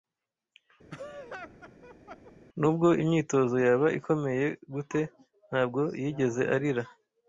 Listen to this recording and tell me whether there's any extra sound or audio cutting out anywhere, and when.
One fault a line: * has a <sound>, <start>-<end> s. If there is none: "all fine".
* has a laugh, 0.9-2.3 s